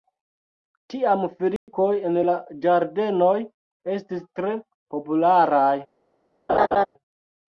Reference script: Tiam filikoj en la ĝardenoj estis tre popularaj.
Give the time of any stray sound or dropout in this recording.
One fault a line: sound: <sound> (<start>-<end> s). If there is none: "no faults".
sound: dropout (1.6-1.7 s)
sound: laugh (6.5-6.9 s)